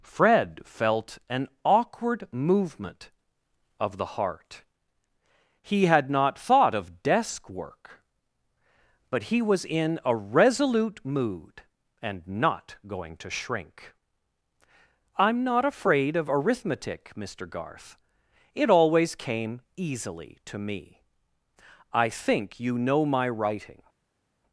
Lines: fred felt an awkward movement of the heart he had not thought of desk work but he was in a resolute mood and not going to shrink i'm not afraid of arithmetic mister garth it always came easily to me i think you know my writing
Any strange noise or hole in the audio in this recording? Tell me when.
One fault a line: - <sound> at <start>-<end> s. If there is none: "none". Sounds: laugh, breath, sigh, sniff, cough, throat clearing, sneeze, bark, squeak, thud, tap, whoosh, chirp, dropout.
none